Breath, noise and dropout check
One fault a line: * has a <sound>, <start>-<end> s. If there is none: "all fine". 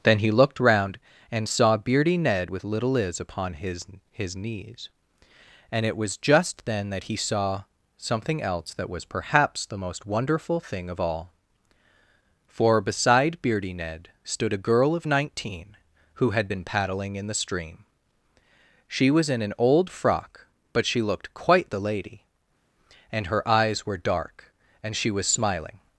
all fine